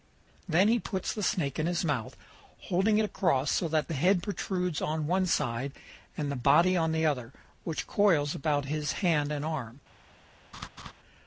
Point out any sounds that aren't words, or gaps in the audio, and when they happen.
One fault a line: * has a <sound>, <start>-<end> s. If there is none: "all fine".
* has a laugh, 10.5-10.9 s